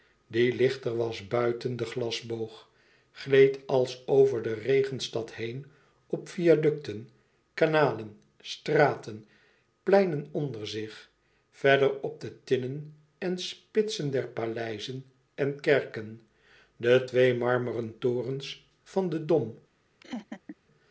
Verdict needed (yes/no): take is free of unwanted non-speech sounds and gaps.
no